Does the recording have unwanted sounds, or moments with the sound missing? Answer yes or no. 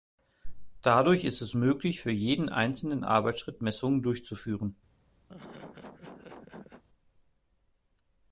yes